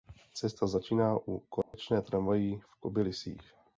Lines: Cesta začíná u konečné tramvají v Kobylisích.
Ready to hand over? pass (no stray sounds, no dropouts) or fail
fail